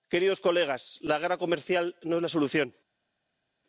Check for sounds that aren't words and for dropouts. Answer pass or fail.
pass